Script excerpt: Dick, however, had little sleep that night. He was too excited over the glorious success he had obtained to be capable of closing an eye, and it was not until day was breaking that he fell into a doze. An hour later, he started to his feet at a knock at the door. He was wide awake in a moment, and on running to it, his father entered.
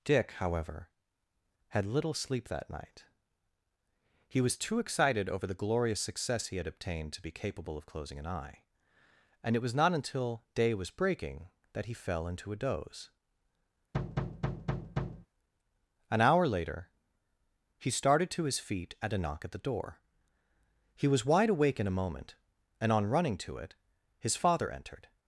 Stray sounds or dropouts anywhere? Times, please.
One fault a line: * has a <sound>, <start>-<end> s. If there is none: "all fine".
* has a thud, 13.9-15.3 s